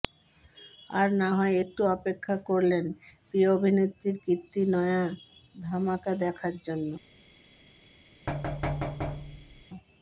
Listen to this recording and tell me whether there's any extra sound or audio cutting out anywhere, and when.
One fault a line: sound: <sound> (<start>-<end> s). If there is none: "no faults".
sound: thud (8.3-9.7 s)